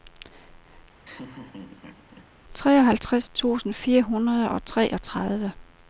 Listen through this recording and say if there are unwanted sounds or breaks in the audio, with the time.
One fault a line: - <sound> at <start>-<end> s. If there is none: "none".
- laugh at 1.0-2.3 s